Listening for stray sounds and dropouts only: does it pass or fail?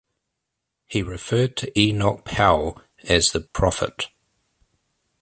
fail